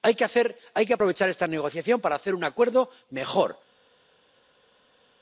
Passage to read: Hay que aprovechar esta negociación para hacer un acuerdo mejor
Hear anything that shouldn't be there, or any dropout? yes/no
no